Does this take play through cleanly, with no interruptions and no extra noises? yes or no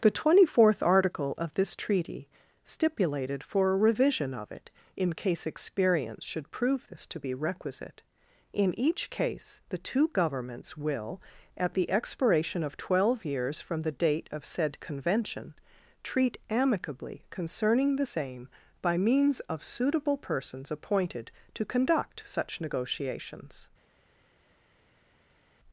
yes